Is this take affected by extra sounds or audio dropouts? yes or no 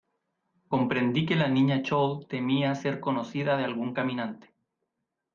no